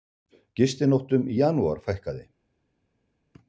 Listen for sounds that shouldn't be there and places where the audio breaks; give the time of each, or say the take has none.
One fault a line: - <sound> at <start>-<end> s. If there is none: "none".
none